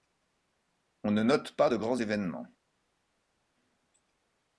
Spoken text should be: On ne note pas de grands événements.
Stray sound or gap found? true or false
false